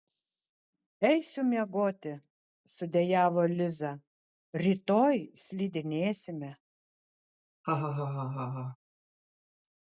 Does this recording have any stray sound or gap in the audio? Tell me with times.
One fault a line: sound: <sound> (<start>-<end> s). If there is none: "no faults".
sound: laugh (7.6-8.8 s)